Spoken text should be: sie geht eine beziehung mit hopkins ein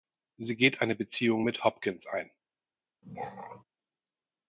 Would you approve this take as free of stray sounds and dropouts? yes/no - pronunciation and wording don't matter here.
no